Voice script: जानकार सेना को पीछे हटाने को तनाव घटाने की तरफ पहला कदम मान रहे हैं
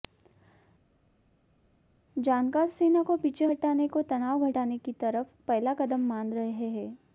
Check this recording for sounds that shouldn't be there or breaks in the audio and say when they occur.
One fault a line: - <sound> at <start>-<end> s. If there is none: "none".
none